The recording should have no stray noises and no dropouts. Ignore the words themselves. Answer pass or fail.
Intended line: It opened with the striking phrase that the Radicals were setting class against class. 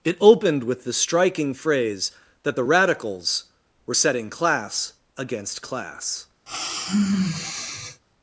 fail